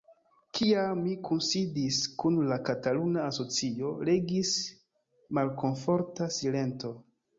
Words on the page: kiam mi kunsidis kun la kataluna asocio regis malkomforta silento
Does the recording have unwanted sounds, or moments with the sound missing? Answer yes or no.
no